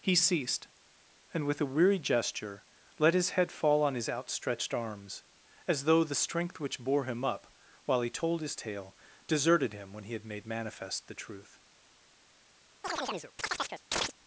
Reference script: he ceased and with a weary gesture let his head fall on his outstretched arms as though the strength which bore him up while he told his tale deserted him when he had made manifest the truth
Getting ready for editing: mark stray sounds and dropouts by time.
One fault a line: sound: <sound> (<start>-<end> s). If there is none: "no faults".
sound: chirp (12.8-14.1 s)